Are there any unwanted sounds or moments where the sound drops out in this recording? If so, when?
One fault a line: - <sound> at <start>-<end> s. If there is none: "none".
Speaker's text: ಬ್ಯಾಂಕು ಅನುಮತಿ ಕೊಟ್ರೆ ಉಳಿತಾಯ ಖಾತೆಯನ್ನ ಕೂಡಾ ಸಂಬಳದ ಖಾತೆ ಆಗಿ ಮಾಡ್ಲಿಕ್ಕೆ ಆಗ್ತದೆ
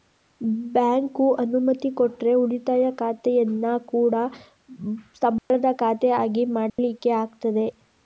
- dropout at 5.4-5.5 s
- dropout at 6.7-6.8 s